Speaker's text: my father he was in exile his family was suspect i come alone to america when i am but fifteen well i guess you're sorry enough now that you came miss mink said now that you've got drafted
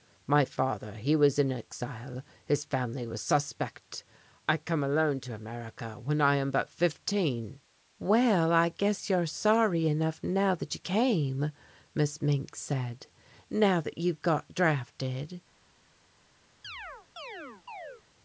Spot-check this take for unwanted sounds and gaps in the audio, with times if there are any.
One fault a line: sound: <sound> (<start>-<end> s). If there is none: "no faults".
sound: chirp (16.6-18.0 s)